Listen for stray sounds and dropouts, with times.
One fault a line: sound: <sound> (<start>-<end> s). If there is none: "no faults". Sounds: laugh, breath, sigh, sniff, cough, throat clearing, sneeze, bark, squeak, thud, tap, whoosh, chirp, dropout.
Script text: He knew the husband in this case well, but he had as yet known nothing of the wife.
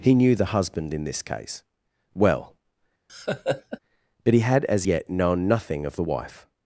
sound: laugh (3.1-3.8 s)